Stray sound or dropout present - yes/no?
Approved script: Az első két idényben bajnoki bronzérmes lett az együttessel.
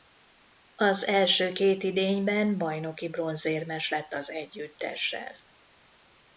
no